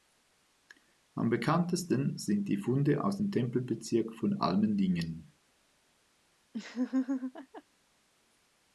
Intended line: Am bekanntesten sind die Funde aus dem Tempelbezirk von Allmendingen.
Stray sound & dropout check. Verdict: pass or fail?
fail